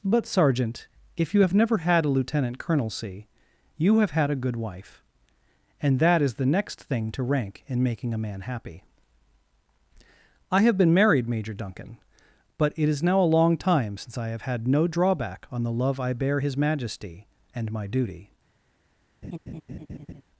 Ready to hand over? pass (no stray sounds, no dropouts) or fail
fail